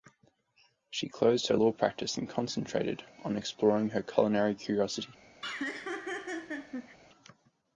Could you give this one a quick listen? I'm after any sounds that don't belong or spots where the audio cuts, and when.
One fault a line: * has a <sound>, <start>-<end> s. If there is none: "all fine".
* has a laugh, 5.4-7.0 s